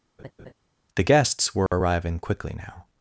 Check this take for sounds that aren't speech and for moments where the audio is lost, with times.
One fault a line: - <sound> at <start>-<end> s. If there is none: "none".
- laugh at 0.2-0.5 s
- dropout at 1.7-1.7 s